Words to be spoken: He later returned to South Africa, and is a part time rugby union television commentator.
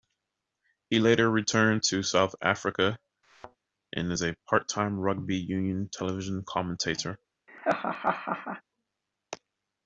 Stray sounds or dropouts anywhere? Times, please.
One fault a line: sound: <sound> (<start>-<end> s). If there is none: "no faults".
sound: thud (3.2-3.6 s)
sound: laugh (7.5-8.6 s)